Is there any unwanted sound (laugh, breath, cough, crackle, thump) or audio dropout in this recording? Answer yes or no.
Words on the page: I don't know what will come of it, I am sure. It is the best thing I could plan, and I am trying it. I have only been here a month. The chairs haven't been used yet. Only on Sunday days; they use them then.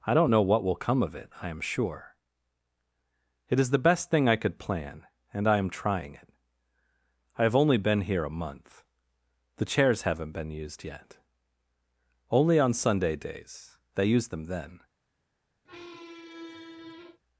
yes